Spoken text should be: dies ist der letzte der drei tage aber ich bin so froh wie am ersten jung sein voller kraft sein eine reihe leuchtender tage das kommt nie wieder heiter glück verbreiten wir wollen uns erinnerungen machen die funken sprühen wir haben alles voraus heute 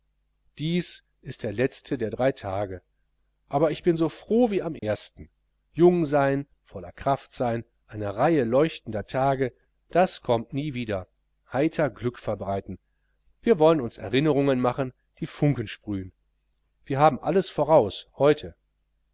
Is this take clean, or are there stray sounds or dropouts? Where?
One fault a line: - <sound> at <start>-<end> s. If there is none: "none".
- dropout at 4.8-4.8 s